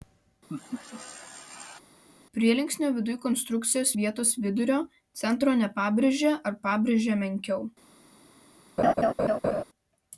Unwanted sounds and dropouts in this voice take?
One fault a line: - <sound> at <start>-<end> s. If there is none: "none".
- laugh at 0.5-1.8 s
- laugh at 8.8-9.6 s